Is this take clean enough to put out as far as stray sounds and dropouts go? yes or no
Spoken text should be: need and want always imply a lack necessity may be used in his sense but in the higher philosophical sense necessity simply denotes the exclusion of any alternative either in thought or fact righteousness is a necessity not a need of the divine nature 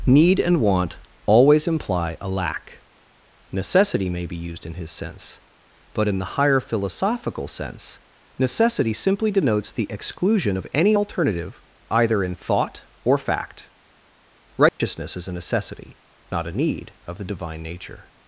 no